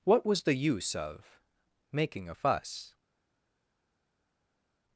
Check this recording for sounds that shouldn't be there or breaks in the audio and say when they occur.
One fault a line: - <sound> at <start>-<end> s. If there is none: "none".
none